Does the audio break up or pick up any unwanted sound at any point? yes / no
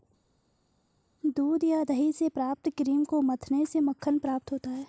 no